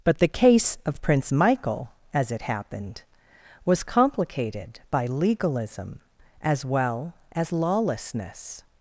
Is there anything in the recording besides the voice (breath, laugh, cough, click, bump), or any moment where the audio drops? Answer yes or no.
no